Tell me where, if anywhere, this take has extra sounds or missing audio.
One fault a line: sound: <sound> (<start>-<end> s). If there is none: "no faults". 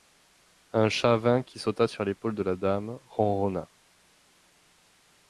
no faults